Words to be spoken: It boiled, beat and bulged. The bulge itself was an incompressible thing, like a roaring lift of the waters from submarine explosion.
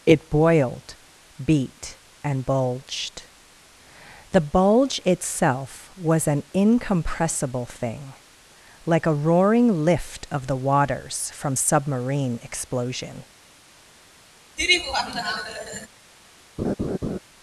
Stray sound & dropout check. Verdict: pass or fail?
fail